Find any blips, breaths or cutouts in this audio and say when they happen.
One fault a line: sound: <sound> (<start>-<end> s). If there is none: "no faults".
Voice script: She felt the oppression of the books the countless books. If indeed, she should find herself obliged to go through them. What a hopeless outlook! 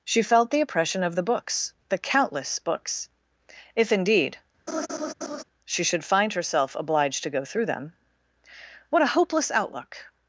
sound: laugh (4.7-5.4 s)